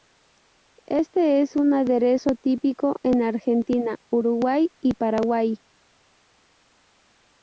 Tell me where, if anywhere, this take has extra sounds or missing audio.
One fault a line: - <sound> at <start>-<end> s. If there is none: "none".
none